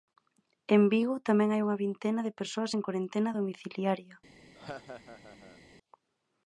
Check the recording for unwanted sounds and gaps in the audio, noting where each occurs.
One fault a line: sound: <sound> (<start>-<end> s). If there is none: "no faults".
sound: laugh (4.5-5.6 s)